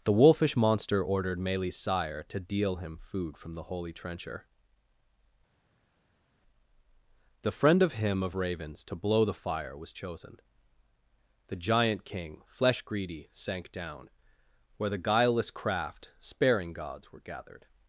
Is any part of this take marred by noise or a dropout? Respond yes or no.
no